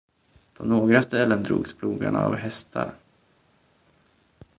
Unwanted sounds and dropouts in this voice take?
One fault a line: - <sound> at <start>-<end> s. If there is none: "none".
none